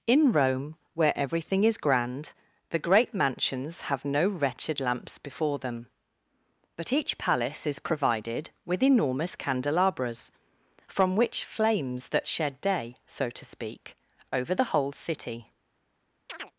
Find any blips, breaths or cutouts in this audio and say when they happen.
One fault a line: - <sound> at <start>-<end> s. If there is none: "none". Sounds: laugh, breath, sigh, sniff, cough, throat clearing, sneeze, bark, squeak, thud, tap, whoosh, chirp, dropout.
- chirp at 16.3-16.5 s